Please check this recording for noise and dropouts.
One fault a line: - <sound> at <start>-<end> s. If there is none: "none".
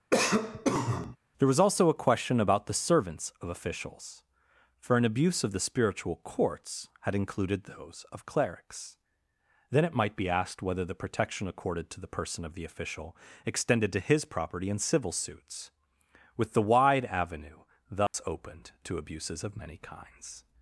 - cough at 0.1-1.2 s
- dropout at 18.1-18.1 s